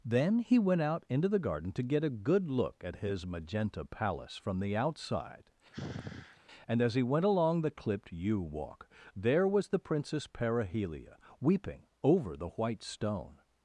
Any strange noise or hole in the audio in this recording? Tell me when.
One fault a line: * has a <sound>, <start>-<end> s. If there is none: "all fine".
* has a sigh, 5.7-6.4 s